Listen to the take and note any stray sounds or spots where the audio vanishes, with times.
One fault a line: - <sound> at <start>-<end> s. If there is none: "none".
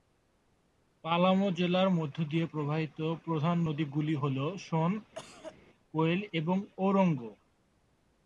- cough at 5.2-5.6 s